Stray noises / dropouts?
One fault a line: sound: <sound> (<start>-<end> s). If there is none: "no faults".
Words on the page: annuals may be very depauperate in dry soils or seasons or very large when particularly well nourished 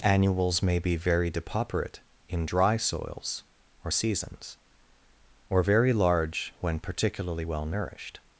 no faults